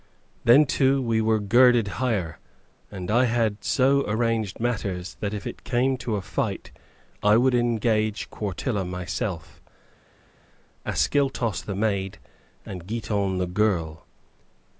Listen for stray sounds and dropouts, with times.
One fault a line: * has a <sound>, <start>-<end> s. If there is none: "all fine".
all fine